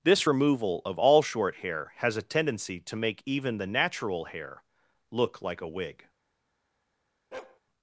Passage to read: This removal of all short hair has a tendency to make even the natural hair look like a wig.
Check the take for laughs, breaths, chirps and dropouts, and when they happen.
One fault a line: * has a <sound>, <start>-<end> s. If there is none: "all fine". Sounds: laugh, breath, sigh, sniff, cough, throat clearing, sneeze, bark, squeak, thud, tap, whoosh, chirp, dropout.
* has a bark, 7.3-7.6 s